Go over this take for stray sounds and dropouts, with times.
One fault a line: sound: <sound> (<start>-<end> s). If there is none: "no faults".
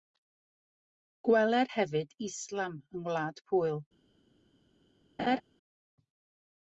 sound: laugh (5.2-5.4 s)